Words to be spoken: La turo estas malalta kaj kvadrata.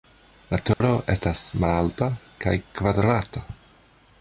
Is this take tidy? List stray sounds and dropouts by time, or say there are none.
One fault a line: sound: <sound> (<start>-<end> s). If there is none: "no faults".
sound: dropout (0.7-0.8 s)